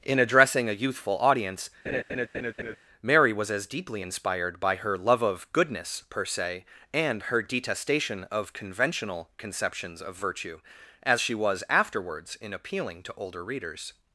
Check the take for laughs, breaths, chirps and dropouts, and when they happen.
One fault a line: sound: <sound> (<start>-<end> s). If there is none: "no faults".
sound: laugh (1.9-2.8 s)